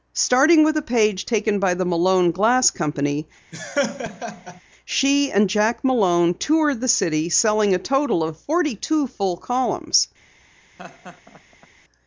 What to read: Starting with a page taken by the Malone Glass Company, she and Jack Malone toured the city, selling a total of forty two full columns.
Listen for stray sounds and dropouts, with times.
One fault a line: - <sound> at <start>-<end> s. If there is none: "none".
- laugh at 3.5-4.6 s
- laugh at 10.8-11.7 s